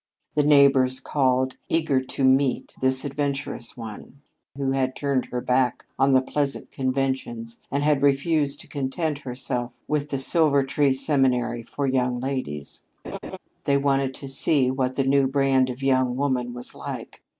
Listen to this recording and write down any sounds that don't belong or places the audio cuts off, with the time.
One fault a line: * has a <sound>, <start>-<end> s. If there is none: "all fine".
* has a laugh, 13.0-13.4 s